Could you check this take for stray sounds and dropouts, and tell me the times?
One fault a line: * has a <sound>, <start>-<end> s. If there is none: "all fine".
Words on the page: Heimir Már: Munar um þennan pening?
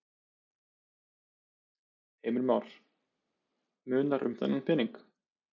all fine